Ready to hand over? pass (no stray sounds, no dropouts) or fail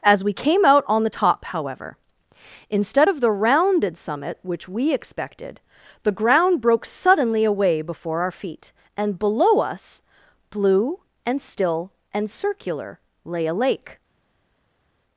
pass